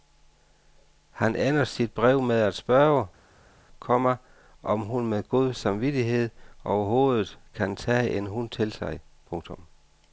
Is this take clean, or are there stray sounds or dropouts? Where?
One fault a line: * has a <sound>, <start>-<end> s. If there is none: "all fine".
all fine